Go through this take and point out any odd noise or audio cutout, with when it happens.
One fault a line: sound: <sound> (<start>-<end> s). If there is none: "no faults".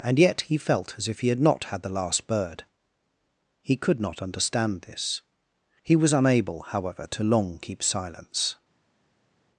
no faults